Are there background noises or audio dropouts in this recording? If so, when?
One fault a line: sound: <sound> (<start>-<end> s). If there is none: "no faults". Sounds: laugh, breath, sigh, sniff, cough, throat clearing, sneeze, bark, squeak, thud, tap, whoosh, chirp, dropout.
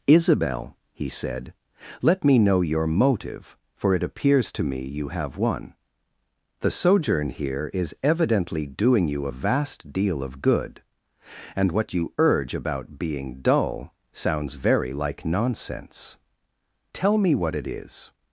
no faults